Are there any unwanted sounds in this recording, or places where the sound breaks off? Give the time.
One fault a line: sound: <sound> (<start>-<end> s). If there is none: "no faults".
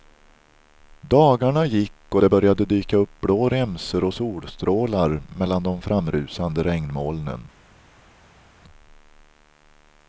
no faults